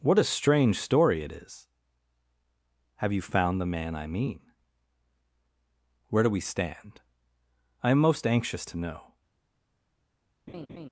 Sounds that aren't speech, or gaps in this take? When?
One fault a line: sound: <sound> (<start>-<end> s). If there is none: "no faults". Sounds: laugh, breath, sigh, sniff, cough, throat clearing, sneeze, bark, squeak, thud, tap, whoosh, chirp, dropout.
sound: laugh (10.5-10.9 s)